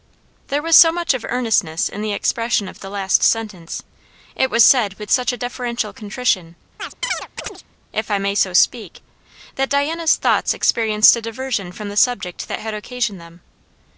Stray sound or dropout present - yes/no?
yes